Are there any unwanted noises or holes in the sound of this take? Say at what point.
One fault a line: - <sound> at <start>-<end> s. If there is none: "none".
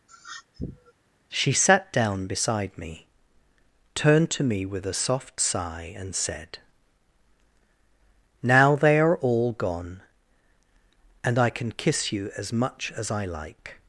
- sniff at 0.1-0.9 s